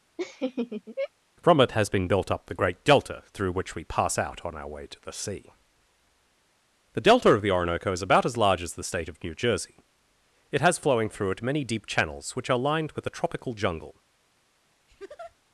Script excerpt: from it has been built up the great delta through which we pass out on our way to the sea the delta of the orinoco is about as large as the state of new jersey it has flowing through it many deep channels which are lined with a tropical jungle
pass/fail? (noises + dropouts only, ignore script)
fail